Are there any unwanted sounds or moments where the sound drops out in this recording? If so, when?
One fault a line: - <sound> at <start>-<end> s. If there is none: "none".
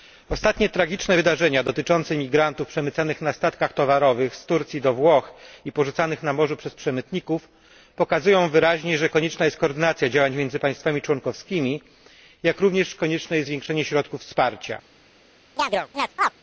- chirp at 15.6-16.3 s